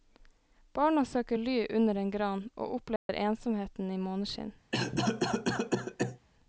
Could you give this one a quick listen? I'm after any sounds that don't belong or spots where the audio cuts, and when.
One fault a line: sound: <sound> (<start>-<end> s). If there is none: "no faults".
sound: dropout (3.0-3.1 s)
sound: cough (4.7-6.2 s)